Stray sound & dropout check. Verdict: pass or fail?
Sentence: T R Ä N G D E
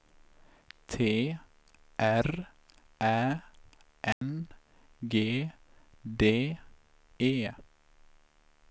fail